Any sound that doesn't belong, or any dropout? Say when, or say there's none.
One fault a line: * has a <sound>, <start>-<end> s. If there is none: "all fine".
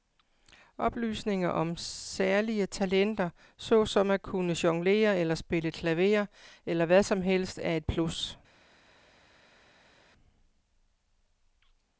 all fine